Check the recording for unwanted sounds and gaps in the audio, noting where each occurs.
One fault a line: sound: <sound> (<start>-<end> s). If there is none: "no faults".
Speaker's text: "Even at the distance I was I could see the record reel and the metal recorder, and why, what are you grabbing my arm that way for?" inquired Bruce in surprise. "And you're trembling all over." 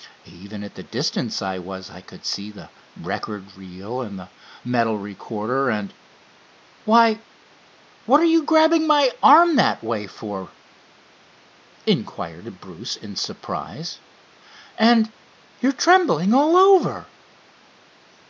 no faults